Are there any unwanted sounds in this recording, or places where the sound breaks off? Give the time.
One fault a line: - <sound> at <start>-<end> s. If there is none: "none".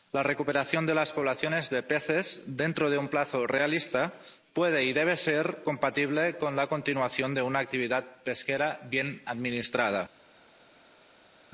none